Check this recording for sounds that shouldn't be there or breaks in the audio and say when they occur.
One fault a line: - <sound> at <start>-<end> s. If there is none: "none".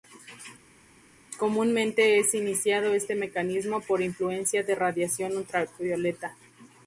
none